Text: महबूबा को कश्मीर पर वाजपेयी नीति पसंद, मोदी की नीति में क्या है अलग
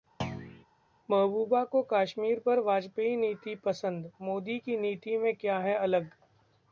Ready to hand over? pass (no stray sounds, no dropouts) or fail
fail